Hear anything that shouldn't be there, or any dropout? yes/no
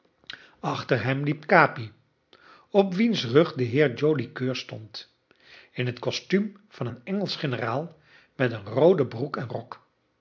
no